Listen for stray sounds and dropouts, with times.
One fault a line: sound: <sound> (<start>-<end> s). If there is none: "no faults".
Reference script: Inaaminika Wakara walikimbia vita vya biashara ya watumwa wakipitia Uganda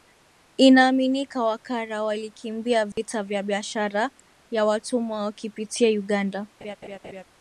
sound: dropout (2.9-3.0 s)
sound: laugh (6.6-7.2 s)